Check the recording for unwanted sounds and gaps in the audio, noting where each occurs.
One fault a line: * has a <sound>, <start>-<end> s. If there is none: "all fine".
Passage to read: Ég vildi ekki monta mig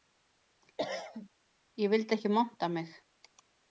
* has a cough, 0.8-1.3 s